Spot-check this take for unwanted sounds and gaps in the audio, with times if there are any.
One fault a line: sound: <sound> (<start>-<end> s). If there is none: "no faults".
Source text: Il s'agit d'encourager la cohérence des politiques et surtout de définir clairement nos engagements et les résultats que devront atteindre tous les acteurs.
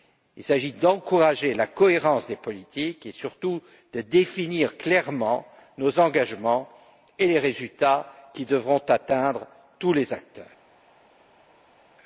no faults